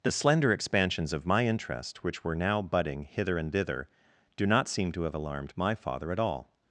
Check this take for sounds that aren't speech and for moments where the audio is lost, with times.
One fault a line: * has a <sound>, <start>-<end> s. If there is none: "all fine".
all fine